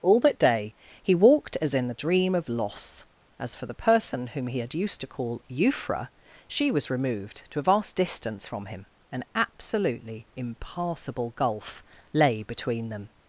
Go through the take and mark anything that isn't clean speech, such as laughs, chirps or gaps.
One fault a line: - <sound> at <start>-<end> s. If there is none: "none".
none